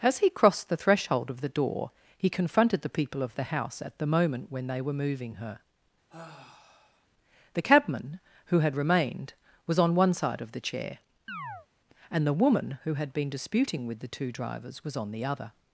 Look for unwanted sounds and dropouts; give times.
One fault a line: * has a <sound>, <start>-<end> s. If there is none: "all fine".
* has a sigh, 6.1-7.1 s
* has a chirp, 11.3-11.7 s